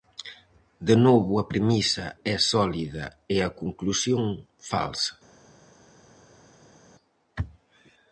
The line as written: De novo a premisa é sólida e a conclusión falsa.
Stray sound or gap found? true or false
false